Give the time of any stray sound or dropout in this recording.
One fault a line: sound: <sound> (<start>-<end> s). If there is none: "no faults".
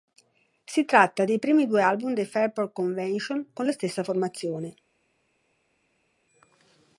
no faults